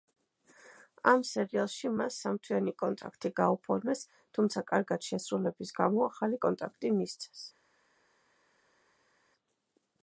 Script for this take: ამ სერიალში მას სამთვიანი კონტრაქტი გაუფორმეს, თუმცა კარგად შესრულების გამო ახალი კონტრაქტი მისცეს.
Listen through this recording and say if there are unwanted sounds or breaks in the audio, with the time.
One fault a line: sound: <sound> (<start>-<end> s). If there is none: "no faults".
no faults